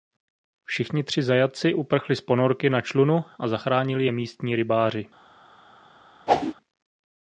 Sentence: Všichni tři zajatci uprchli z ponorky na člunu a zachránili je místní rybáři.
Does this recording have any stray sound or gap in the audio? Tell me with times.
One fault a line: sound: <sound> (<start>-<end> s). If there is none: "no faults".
sound: whoosh (6.3-6.5 s)